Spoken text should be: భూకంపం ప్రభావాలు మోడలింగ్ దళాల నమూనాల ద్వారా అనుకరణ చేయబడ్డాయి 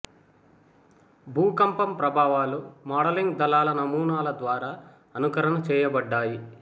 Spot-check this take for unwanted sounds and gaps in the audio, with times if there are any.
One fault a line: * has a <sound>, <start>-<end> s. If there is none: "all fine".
all fine